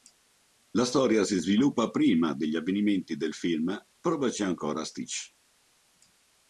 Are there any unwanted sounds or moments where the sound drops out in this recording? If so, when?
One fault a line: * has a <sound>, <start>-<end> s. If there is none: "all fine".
all fine